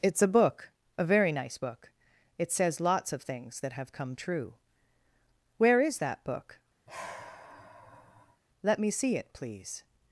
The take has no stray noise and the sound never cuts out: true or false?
false